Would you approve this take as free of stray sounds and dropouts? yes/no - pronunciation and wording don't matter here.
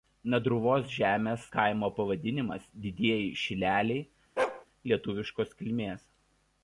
no